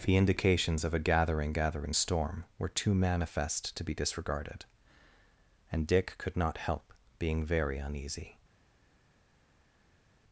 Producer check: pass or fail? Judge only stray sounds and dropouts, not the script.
pass